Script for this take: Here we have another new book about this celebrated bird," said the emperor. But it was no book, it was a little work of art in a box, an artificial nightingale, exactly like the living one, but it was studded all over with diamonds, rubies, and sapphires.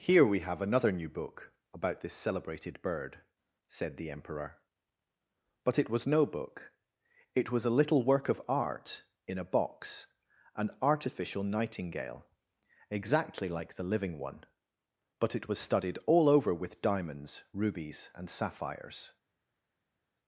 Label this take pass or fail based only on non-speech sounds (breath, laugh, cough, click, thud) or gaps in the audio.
pass